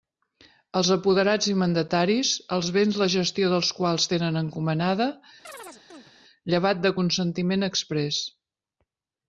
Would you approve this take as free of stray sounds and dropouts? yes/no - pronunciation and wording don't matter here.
no